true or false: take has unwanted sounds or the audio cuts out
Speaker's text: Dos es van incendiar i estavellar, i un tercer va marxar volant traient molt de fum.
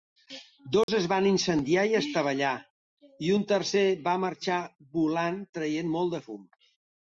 true